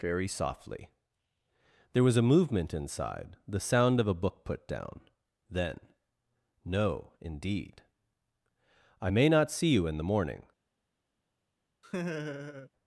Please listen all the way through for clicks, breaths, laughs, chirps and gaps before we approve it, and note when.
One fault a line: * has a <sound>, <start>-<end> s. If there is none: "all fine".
* has a laugh, 11.8-12.7 s